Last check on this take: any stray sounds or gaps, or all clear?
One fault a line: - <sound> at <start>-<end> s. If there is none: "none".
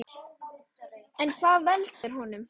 - dropout at 1.9-2.0 s